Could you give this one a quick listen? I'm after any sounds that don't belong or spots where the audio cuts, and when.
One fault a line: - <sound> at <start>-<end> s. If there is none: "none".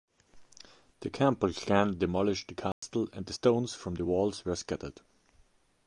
- dropout at 2.7-2.8 s